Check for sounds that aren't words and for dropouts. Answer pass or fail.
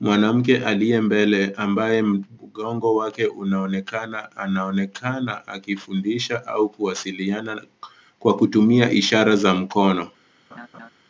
fail